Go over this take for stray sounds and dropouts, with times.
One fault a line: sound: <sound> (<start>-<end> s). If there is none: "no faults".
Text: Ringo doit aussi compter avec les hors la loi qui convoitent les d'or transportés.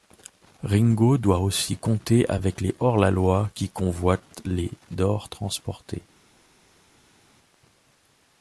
no faults